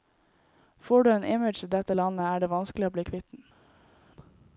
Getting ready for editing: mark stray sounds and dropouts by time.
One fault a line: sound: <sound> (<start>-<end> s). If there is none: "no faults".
no faults